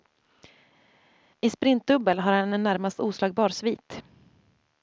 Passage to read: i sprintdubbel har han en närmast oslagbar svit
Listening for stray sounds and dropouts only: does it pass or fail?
pass